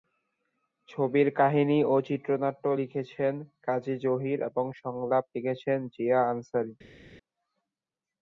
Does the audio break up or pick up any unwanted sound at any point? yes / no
no